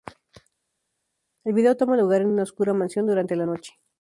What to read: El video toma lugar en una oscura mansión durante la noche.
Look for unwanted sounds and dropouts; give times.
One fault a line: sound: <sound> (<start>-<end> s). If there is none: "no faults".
no faults